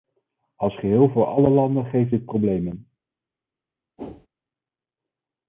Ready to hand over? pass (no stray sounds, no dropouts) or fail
fail